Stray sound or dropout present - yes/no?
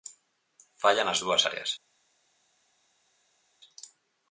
no